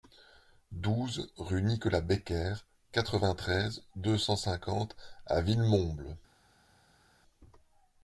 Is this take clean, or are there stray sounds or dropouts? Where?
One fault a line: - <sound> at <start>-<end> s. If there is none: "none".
none